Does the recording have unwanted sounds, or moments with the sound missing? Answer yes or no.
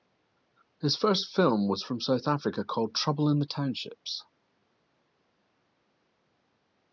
no